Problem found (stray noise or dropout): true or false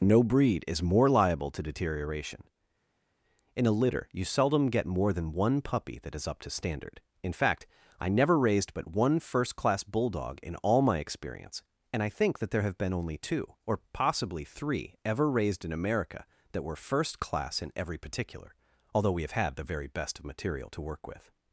false